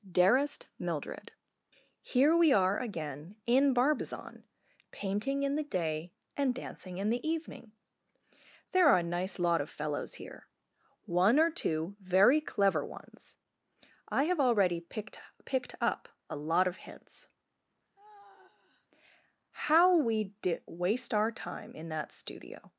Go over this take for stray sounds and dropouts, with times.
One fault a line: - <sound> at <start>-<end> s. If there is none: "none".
- sigh at 18.0-18.9 s